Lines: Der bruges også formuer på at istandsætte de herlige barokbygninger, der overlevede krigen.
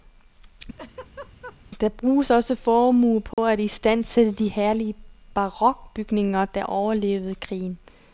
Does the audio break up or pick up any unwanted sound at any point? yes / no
yes